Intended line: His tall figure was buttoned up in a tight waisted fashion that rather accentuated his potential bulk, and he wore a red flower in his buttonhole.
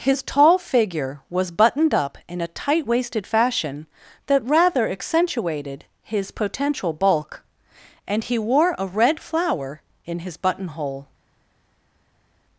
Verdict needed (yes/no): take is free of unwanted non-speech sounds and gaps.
yes